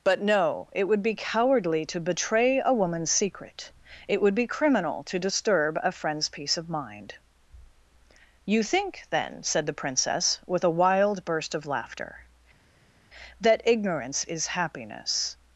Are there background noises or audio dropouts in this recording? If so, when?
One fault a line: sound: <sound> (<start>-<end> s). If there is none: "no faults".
no faults